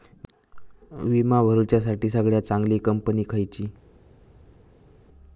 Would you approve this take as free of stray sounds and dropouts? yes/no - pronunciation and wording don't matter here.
yes